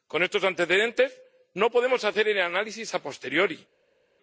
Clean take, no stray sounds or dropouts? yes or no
yes